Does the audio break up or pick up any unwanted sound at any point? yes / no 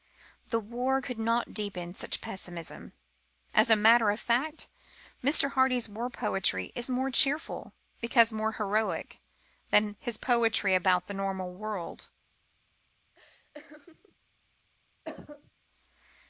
yes